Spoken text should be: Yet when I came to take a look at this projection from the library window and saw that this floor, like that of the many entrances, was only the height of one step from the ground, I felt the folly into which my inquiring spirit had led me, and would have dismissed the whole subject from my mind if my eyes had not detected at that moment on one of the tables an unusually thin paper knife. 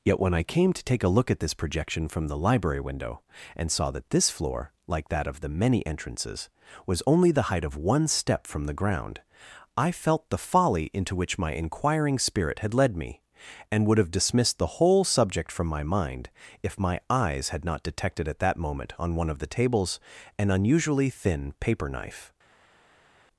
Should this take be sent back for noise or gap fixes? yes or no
no